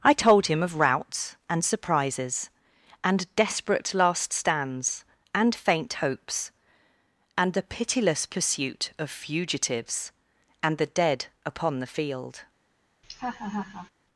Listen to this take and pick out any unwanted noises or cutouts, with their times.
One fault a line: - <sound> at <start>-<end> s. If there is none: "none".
- laugh at 13.0-13.9 s